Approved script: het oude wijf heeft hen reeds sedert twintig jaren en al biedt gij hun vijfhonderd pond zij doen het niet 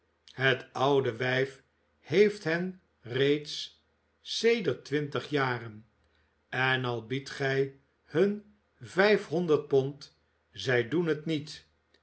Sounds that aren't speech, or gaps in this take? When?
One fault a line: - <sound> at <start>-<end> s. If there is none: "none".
none